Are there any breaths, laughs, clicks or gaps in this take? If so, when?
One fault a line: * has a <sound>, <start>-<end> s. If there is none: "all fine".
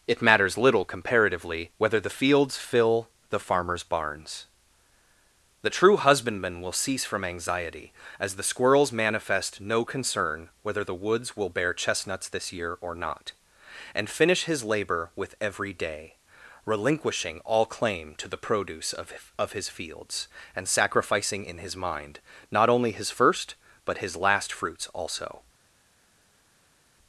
all fine